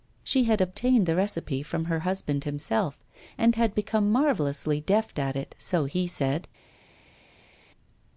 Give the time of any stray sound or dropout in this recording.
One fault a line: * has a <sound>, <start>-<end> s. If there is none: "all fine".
all fine